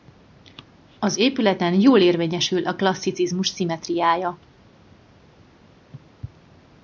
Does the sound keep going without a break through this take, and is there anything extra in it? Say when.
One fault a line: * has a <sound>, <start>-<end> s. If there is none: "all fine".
all fine